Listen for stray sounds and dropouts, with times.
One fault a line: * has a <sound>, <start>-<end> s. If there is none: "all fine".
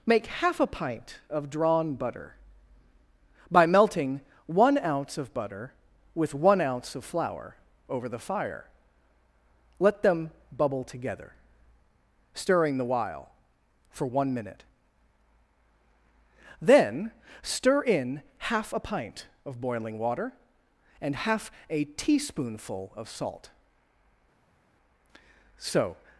all fine